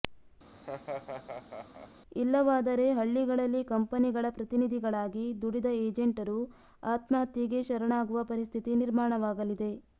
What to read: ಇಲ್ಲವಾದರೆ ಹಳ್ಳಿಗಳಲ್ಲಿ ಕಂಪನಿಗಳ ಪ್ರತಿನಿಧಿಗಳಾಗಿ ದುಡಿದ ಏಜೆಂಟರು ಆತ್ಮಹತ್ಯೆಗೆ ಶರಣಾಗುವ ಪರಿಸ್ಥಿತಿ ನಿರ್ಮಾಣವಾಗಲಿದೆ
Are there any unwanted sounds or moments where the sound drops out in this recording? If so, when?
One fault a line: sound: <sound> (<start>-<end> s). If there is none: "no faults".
sound: laugh (0.5-1.9 s)